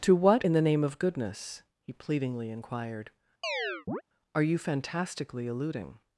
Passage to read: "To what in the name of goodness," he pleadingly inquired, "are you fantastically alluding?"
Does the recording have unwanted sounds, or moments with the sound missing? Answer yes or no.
yes